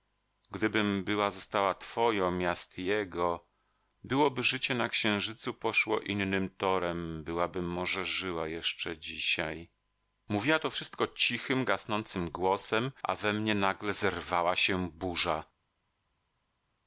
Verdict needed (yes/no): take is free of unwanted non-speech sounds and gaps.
yes